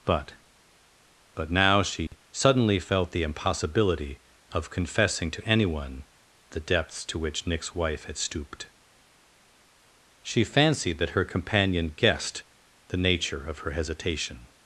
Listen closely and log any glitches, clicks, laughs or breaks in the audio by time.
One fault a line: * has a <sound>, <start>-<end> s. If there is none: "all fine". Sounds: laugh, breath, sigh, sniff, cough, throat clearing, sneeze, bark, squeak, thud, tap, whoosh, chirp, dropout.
* has a dropout, 2.1-2.1 s